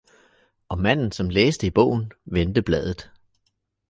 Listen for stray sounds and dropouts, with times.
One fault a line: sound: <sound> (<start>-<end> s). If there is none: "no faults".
no faults